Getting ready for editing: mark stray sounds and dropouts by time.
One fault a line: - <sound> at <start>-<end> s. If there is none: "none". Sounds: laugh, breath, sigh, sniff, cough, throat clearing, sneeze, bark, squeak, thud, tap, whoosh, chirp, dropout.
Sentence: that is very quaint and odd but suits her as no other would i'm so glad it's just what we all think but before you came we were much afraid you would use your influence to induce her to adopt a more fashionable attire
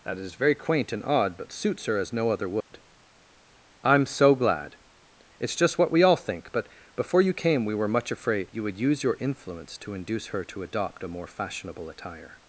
- dropout at 2.6-2.7 s